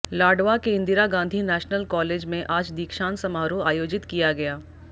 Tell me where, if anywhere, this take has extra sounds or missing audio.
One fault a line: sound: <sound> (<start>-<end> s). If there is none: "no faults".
no faults